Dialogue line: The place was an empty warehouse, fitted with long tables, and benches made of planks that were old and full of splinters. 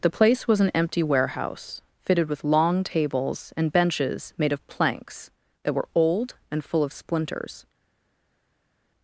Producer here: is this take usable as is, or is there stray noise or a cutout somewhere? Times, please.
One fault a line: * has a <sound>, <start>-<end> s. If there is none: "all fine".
all fine